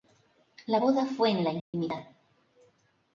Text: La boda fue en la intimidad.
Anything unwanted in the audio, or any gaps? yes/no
yes